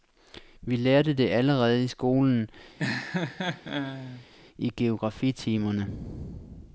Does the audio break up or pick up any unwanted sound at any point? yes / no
yes